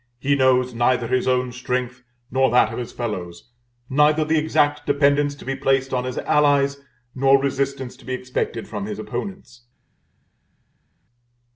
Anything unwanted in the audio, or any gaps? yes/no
no